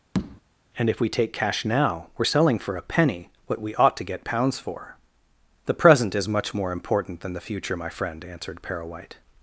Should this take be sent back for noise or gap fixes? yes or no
yes